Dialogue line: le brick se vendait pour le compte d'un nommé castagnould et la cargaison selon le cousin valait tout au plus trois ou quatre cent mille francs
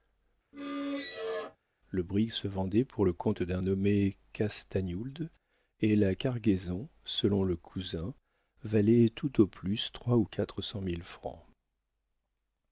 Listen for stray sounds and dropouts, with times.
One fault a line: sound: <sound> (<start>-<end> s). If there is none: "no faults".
sound: squeak (0.5-1.6 s)